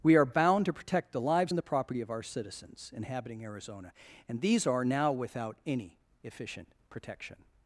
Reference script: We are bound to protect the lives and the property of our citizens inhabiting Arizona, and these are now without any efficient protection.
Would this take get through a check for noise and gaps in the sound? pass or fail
pass